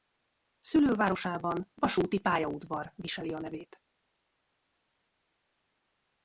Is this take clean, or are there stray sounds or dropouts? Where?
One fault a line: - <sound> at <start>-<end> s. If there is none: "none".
none